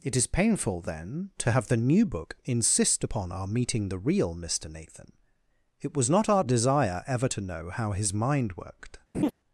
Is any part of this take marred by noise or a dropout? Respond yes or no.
yes